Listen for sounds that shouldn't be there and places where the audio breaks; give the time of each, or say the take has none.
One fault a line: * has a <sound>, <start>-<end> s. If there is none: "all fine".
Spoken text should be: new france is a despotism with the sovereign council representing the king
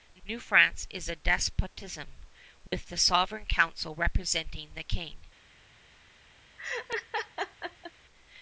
* has a dropout, 2.7-2.7 s
* has a laugh, 6.6-7.9 s